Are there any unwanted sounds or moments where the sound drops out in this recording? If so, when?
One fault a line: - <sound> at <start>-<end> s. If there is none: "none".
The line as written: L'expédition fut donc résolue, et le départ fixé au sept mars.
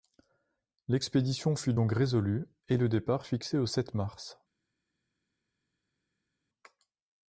none